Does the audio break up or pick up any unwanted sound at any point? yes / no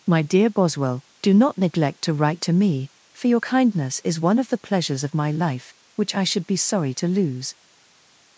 no